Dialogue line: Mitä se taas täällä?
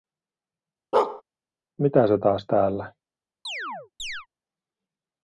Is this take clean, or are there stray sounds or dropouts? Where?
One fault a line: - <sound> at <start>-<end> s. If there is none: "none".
- bark at 0.9-1.2 s
- chirp at 3.4-4.3 s